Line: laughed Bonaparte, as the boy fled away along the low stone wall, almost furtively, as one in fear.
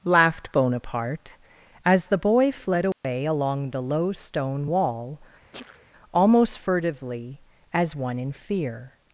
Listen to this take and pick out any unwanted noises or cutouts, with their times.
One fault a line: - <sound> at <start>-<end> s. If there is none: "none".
- dropout at 2.9-3.0 s
- sneeze at 5.5-5.9 s